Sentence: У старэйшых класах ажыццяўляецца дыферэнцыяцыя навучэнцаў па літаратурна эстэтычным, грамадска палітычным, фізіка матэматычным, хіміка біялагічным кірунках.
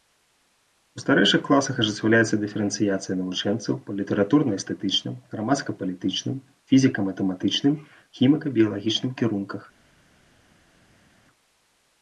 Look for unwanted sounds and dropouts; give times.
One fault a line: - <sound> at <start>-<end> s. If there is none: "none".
none